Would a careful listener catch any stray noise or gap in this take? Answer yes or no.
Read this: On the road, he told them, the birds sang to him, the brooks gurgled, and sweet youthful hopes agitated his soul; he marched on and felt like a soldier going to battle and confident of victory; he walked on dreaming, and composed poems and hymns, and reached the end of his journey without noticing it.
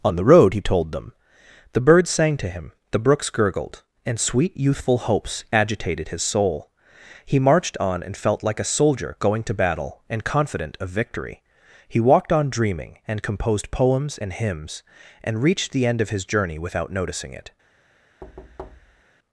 yes